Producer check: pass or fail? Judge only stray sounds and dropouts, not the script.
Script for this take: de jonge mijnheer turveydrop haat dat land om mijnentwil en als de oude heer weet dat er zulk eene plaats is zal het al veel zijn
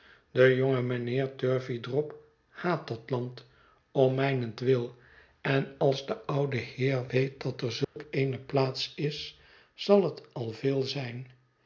fail